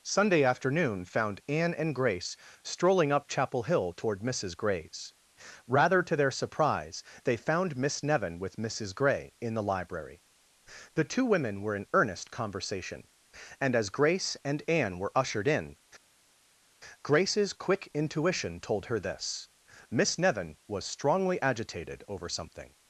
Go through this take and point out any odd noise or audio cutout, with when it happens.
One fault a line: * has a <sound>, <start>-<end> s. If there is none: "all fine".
all fine